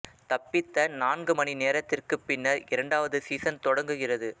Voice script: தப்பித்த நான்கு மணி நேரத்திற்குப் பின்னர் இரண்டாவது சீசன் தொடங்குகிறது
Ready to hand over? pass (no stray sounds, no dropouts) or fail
pass